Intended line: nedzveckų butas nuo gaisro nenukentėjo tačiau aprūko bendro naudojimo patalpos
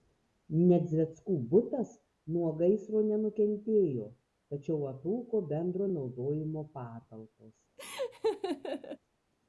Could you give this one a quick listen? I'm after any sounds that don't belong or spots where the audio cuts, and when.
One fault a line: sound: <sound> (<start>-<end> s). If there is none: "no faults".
sound: laugh (7.8-9.0 s)